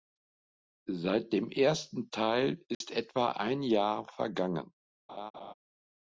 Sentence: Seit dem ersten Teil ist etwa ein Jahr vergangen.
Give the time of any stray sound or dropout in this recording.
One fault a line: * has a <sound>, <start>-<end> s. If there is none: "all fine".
* has a dropout, 2.7-2.8 s
* has a laugh, 5.1-5.5 s